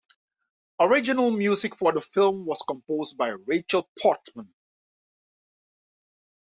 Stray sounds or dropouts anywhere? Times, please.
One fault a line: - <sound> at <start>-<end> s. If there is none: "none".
none